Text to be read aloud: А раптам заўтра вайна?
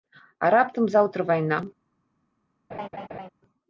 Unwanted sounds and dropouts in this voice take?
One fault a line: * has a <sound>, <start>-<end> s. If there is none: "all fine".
* has a laugh, 2.7-3.3 s